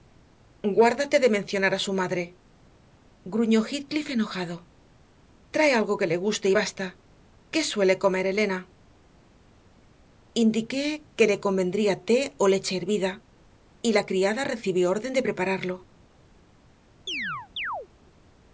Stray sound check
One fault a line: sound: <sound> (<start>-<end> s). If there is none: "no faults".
sound: chirp (17.1-17.9 s)